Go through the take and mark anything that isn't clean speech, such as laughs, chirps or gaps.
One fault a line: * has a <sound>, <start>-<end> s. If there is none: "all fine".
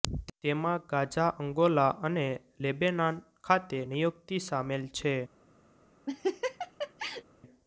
* has a laugh, 6.1-7.2 s